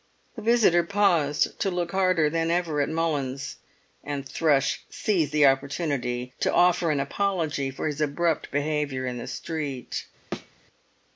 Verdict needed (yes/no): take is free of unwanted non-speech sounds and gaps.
no